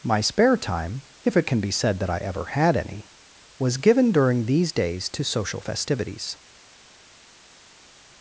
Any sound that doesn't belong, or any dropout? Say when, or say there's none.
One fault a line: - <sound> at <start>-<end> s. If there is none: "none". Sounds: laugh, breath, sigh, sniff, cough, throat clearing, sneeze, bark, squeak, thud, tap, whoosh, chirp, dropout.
none